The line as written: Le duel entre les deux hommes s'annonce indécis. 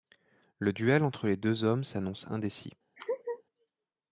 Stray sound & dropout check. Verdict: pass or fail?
fail